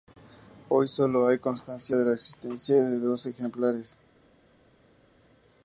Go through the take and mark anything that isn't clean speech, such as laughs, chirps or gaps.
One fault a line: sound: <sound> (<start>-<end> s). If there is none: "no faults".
no faults